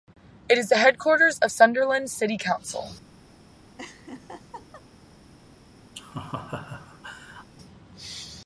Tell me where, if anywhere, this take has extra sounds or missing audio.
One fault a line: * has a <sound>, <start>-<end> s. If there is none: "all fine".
* has a laugh, 3.8-4.8 s
* has a laugh, 5.9-7.5 s